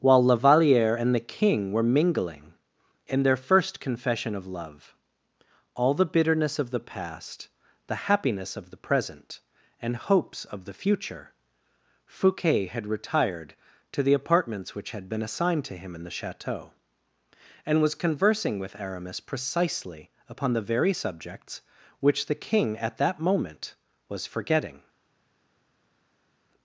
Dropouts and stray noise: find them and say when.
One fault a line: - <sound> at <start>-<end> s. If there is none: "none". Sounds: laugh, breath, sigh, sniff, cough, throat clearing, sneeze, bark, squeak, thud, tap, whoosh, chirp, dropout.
none